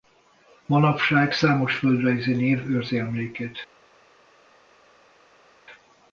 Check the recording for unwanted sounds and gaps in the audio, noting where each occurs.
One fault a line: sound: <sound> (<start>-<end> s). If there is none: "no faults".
no faults